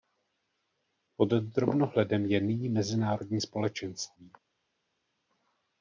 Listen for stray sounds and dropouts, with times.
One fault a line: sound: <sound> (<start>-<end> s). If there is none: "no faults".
no faults